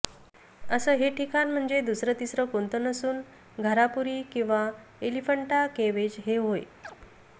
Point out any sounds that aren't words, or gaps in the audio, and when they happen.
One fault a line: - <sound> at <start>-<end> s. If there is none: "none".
- chirp at 6.8-7.0 s